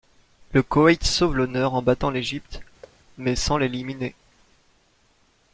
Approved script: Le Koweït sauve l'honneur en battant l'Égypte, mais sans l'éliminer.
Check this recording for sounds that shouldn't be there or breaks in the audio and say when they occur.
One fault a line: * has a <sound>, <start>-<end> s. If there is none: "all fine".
* has a thud, 2.8-3.0 s